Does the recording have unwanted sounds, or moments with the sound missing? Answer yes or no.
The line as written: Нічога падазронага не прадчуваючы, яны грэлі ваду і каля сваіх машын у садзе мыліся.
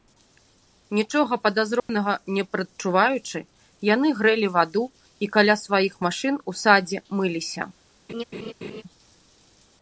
yes